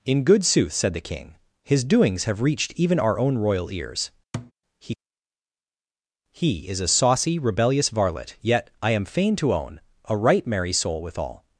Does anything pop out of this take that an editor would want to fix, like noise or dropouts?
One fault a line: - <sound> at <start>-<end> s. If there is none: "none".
- thud at 4.3-4.5 s